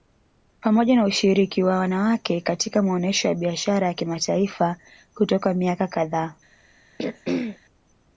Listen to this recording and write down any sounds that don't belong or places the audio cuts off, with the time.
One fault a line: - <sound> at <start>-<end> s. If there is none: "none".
- throat clearing at 7.0-7.6 s